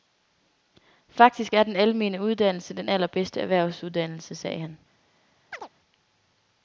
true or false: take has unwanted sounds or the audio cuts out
true